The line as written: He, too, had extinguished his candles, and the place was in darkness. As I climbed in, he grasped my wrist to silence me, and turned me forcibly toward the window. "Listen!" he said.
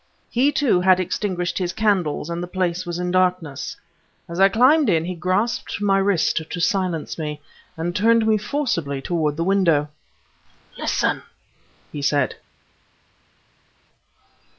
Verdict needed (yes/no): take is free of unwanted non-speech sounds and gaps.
yes